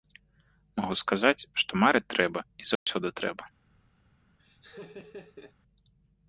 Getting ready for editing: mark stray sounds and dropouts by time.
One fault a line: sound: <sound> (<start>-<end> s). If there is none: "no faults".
sound: dropout (2.8-2.9 s)
sound: laugh (4.4-5.5 s)